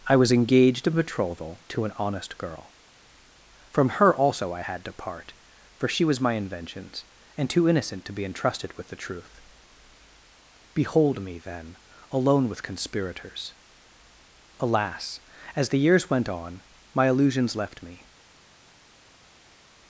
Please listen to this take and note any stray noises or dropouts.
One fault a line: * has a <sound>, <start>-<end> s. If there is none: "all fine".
all fine